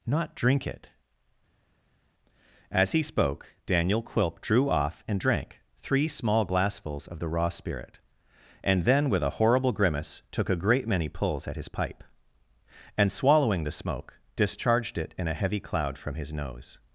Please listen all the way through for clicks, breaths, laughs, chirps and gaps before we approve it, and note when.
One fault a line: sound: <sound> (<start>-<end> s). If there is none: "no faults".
no faults